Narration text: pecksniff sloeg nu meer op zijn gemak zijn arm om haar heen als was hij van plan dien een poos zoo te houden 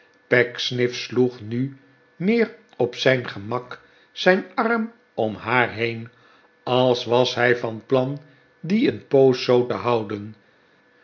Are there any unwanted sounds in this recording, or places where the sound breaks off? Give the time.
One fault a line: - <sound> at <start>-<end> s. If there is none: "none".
none